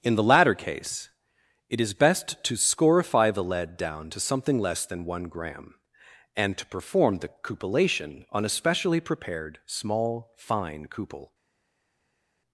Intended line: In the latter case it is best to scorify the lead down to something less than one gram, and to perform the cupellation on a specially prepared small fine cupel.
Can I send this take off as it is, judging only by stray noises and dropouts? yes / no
yes